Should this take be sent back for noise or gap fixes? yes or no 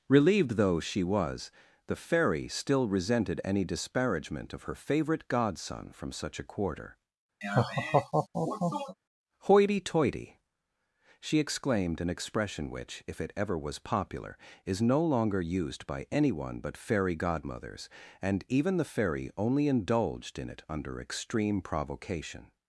yes